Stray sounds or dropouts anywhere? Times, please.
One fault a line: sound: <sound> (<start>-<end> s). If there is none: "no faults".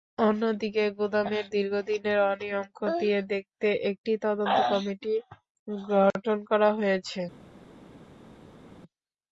no faults